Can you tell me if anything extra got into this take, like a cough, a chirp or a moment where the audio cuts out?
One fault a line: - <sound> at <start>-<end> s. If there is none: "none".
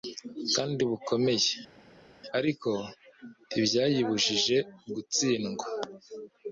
none